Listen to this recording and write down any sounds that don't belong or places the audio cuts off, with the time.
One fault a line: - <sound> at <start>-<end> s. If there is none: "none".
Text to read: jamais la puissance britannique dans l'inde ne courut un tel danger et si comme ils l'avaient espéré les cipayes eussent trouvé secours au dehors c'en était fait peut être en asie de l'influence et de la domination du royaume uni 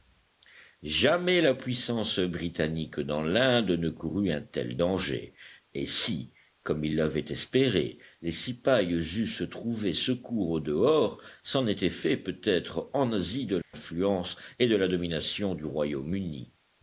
- dropout at 13.6-13.7 s